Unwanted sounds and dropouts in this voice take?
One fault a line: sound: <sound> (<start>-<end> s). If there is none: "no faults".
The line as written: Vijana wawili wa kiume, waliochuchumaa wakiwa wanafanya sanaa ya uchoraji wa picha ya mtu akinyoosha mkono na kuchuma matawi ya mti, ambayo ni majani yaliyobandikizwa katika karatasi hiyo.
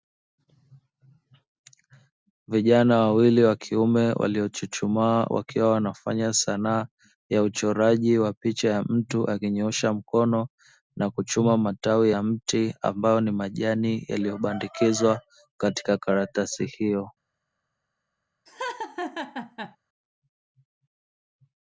sound: laugh (18.5-19.8 s)